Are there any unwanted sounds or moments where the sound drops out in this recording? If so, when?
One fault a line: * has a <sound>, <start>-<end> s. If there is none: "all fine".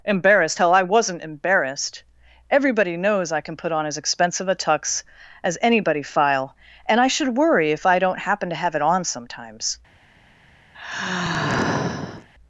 * has a sigh, 10.7-12.3 s